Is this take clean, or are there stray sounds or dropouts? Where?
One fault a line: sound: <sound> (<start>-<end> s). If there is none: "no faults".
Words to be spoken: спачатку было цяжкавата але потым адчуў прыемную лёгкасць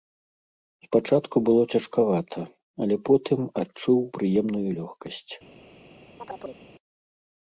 sound: chirp (6.2-6.7 s)